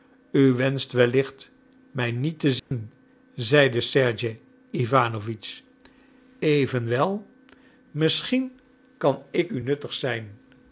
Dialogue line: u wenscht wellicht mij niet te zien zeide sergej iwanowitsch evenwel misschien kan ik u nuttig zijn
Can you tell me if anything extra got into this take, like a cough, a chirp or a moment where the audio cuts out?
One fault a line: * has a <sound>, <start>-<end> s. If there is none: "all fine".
* has a dropout, 2.6-2.7 s